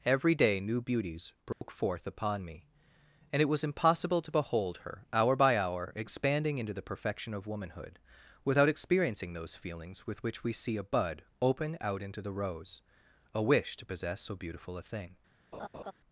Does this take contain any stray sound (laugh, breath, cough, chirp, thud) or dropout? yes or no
yes